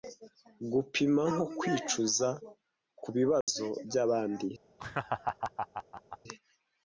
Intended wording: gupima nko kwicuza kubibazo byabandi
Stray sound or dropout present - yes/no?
yes